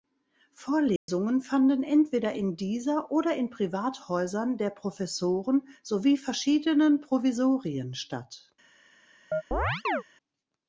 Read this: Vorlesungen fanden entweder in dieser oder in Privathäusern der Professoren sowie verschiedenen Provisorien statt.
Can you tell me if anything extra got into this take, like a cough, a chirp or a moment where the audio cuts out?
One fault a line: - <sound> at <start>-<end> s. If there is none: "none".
- dropout at 1.0-1.1 s
- chirp at 9.3-10.0 s